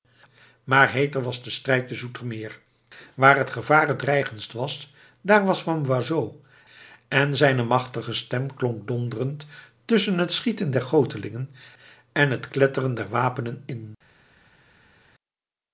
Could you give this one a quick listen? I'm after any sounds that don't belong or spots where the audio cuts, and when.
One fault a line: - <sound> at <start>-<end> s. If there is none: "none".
none